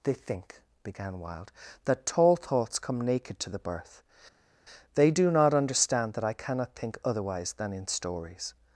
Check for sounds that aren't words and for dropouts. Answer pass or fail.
pass